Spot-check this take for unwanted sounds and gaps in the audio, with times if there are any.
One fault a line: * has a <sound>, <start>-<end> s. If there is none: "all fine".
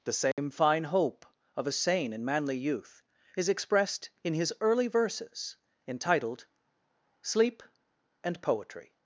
* has a dropout, 0.3-0.4 s